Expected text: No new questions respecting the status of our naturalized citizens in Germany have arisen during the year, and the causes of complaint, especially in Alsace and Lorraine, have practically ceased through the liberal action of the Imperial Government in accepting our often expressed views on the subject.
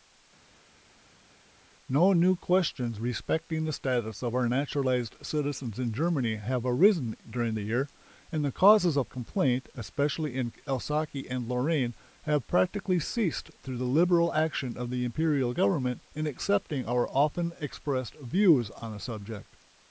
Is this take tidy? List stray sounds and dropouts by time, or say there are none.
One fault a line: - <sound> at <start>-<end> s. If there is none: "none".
none